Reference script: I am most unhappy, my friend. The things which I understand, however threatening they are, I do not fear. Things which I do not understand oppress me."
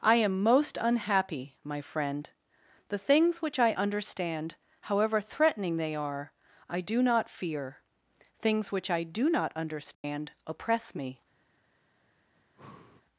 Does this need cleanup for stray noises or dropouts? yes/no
yes